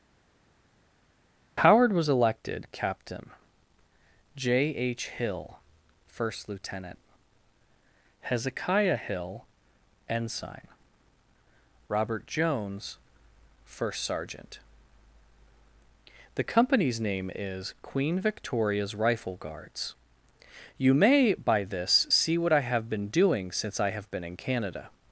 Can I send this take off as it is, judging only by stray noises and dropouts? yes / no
yes